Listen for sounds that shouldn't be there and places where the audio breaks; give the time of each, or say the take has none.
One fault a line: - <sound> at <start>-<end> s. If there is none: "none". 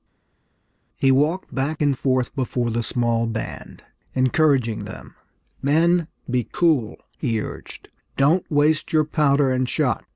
none